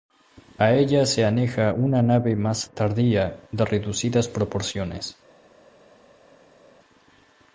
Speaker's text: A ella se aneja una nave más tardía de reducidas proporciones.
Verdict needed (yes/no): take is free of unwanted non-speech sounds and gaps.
yes